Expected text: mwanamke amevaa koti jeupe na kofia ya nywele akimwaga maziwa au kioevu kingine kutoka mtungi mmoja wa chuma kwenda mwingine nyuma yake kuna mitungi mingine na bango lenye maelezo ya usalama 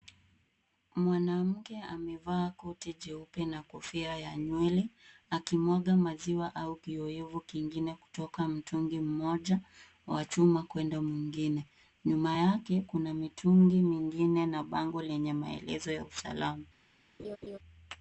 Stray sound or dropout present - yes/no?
yes